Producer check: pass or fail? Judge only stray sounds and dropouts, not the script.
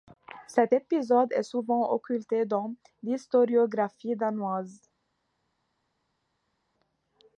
pass